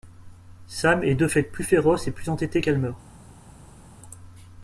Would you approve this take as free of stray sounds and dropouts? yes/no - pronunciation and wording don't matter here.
yes